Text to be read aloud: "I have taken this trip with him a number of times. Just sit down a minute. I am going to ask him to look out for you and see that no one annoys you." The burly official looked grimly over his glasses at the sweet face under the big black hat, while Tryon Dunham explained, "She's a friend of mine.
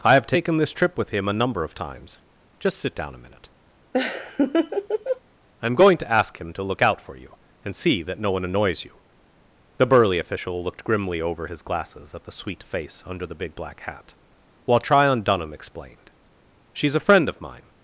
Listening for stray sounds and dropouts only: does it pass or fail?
fail